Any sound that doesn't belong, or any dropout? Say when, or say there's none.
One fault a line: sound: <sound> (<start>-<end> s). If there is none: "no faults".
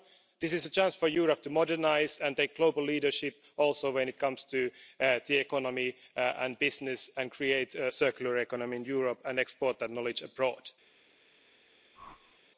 sound: whoosh (12.0-12.4 s)